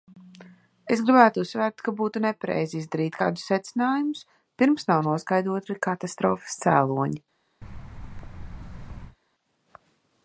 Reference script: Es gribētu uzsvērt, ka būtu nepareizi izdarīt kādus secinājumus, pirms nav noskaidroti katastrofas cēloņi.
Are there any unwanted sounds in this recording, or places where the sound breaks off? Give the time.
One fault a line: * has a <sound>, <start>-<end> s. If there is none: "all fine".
* has a thud, 7.6-9.2 s